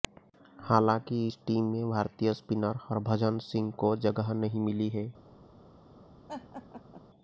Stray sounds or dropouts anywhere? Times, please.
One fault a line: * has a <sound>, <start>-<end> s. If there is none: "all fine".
* has a laugh, 6.3-7.1 s